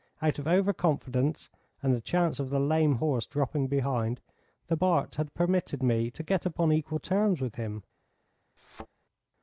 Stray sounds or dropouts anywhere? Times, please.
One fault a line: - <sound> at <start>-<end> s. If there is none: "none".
- thud at 8.6-8.9 s